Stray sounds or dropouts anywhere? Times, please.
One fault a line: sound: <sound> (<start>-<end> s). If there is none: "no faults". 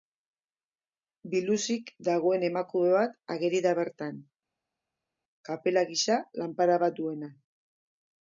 no faults